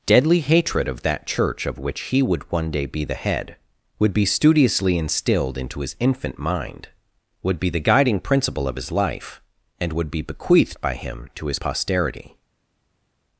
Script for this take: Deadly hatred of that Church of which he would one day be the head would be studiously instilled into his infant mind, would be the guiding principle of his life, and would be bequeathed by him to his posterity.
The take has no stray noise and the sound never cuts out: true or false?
true